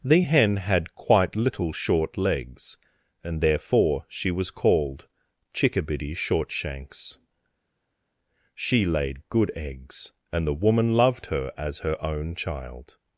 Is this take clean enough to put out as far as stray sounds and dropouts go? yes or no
yes